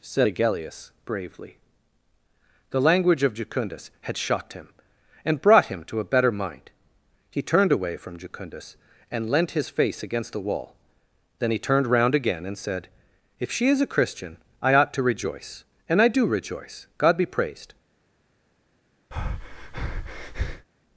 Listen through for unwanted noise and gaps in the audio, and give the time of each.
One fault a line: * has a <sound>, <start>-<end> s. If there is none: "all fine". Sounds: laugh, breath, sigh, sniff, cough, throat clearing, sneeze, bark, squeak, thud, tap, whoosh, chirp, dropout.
* has a breath, 19.1-20.7 s